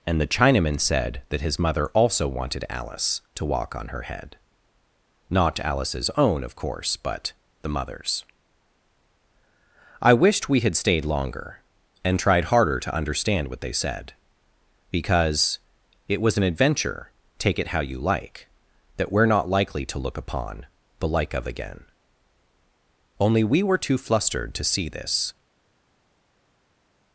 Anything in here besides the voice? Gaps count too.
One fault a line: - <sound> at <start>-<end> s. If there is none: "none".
none